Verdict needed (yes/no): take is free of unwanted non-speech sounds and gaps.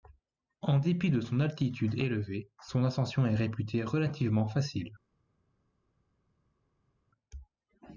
yes